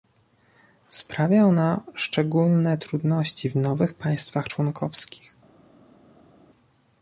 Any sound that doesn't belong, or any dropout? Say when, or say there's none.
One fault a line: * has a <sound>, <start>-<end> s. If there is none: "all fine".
all fine